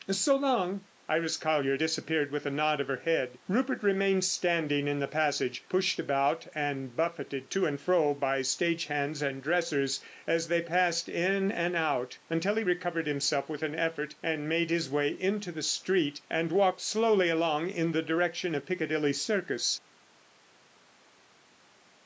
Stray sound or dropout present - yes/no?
no